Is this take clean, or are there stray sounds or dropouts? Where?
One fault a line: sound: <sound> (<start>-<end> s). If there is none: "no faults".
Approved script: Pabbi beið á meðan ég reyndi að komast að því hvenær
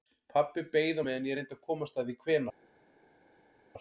no faults